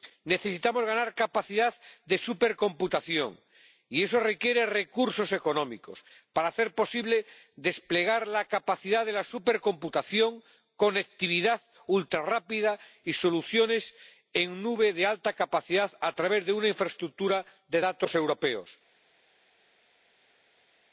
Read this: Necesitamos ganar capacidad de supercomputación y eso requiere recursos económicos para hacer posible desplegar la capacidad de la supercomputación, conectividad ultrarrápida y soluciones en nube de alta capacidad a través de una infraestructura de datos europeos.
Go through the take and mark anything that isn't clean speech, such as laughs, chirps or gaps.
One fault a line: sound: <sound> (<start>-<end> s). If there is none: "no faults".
no faults